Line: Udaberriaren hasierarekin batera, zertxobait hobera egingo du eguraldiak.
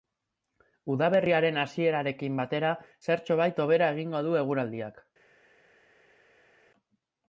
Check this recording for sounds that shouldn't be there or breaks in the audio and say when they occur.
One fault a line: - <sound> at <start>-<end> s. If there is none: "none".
none